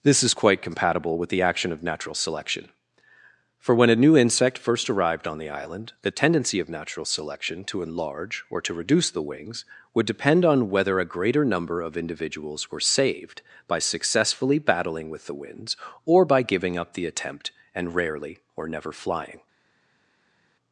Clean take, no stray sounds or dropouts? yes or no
yes